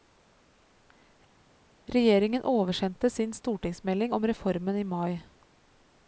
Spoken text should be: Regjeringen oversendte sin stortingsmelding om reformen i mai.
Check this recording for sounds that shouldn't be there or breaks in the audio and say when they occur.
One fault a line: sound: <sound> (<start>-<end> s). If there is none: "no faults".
no faults